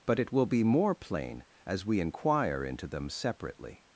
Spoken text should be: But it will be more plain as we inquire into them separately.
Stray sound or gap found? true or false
false